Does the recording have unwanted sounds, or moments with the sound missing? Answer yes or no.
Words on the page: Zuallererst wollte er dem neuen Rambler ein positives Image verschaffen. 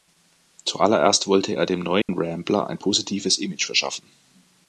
yes